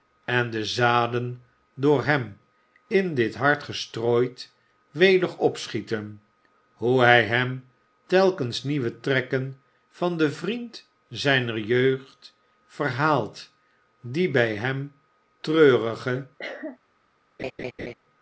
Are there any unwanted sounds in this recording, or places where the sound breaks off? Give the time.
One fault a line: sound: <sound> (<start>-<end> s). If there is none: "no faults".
sound: cough (16.4-16.8 s)
sound: laugh (17.4-17.9 s)